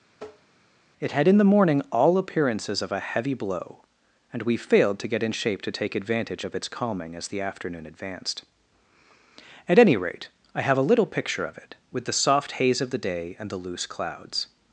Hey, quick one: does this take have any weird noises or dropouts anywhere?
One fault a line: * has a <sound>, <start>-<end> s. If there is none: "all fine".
* has a tap, 0.2-0.5 s